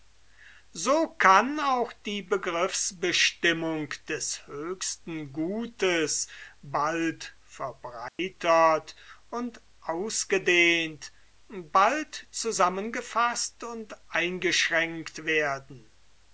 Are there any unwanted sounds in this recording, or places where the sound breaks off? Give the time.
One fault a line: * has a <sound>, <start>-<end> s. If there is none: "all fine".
* has a dropout, 8.1-8.2 s